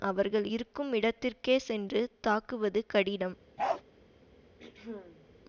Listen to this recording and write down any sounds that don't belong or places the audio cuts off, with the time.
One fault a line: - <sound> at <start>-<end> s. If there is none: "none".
- bark at 3.6-3.8 s
- throat clearing at 4.6-5.3 s